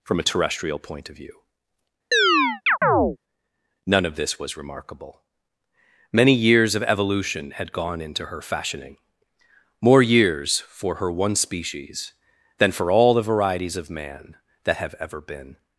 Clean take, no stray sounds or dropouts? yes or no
no